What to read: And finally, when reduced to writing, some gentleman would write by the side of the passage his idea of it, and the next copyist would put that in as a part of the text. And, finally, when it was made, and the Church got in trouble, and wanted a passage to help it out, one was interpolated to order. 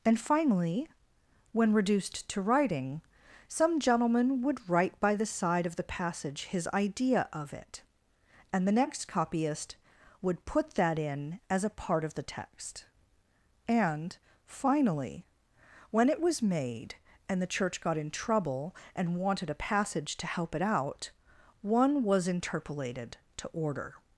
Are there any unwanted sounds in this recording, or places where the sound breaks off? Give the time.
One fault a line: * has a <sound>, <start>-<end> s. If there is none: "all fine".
all fine